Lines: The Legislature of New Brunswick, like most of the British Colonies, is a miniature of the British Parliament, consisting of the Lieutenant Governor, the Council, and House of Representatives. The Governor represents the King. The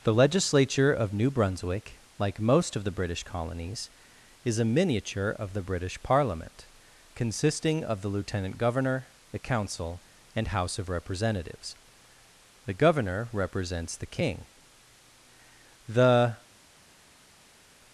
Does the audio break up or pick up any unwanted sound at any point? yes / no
no